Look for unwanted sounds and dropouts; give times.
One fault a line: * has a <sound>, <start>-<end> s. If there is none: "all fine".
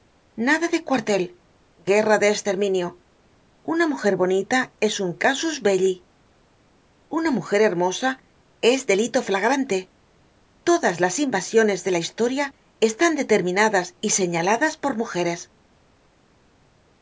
all fine